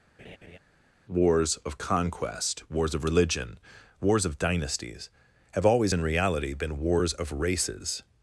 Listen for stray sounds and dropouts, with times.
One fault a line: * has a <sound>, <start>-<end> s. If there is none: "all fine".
* has a laugh, 0.2-0.6 s